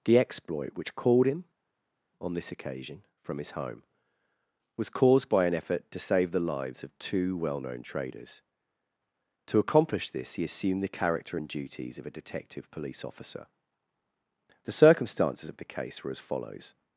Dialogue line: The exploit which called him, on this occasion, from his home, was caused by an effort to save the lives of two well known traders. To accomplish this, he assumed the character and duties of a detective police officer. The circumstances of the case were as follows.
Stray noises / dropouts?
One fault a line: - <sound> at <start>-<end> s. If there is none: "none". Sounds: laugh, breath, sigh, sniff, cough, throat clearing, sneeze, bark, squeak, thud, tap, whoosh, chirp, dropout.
none